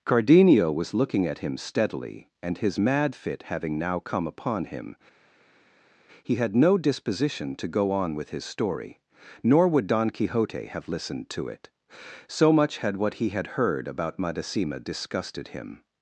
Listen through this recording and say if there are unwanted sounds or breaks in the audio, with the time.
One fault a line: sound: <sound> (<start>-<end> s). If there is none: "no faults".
no faults